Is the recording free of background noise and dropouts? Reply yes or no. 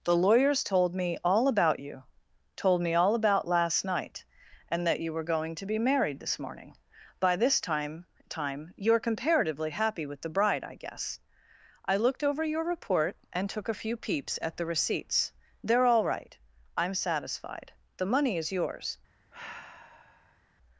no